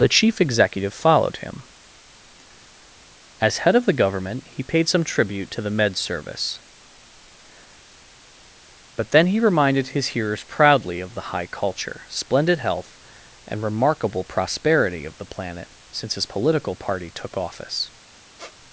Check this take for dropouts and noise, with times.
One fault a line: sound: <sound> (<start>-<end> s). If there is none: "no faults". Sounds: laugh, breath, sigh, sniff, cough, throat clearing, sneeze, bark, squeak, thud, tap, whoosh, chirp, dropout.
sound: squeak (18.4-18.6 s)